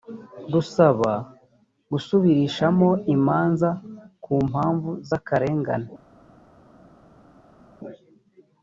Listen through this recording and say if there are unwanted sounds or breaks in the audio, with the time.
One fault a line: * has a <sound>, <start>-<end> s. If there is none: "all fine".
all fine